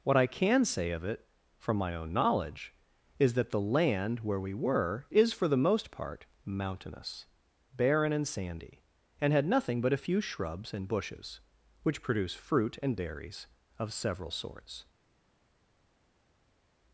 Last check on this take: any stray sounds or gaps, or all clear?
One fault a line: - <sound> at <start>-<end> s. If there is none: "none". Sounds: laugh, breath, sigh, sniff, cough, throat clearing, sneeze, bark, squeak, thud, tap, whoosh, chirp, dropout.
none